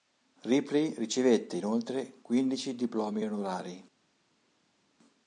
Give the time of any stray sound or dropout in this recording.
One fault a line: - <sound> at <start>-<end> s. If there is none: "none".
none